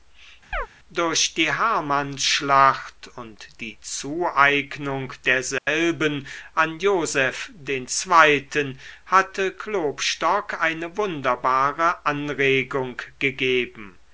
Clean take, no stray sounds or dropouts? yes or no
no